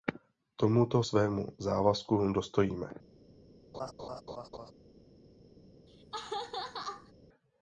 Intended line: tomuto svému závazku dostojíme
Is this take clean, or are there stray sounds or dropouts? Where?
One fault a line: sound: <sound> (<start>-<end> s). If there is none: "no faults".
sound: laugh (3.7-4.7 s)
sound: laugh (5.9-7.1 s)